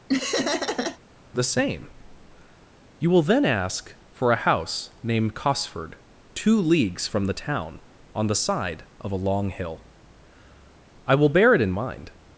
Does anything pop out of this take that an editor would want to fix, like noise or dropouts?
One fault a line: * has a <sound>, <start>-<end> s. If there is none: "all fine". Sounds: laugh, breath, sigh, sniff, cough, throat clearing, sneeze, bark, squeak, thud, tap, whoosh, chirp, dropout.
* has a laugh, 0.1-1.0 s